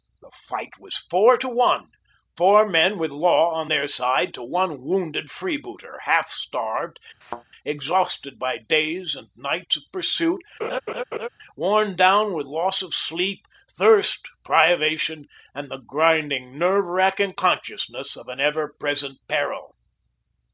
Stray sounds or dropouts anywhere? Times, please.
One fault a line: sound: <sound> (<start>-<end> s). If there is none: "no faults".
sound: thud (7.2-7.4 s)
sound: laugh (10.6-11.3 s)